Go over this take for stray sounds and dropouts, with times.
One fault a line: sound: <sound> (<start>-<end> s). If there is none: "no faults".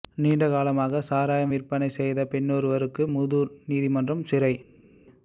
no faults